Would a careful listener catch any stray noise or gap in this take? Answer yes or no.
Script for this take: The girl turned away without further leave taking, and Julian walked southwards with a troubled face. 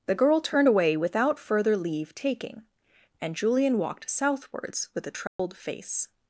yes